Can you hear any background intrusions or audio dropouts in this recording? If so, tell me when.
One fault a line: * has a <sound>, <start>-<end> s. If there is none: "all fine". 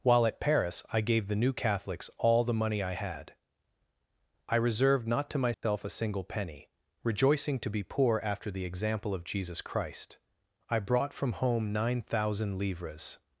* has a dropout, 5.5-5.6 s